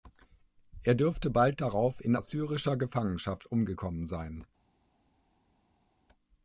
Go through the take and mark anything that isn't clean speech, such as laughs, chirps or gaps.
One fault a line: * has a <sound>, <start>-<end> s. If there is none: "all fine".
all fine